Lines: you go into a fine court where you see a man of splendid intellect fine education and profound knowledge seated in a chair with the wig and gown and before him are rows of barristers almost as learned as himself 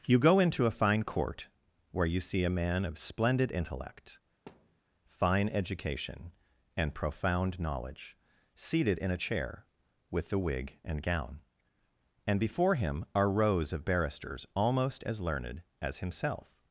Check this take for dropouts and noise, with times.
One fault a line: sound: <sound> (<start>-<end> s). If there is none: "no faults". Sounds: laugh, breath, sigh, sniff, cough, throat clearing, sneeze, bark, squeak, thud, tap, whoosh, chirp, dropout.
sound: thud (4.5-4.8 s)